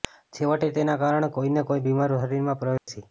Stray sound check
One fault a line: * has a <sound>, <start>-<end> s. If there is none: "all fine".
* has a dropout, 2.8-2.9 s